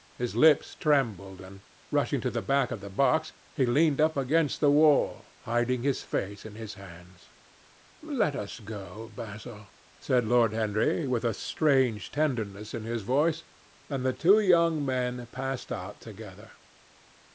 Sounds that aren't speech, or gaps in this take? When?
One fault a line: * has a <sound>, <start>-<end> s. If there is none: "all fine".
all fine